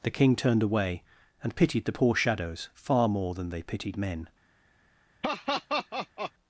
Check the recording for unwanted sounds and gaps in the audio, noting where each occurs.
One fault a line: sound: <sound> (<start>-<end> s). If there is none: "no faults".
sound: laugh (5.2-6.3 s)